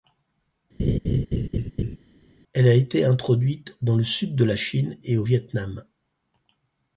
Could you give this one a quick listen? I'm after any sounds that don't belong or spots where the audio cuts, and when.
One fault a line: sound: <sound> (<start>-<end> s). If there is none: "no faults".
sound: laugh (0.8-2.0 s)